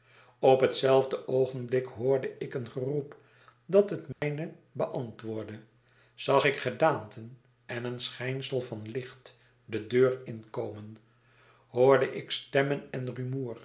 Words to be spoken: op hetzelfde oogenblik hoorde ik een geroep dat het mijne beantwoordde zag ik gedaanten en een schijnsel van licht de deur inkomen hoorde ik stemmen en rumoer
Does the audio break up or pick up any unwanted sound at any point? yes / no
yes